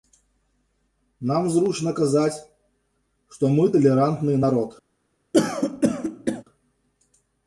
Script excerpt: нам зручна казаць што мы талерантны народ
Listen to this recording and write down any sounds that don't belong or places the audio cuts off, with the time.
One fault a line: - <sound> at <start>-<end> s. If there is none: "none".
- throat clearing at 5.3-6.4 s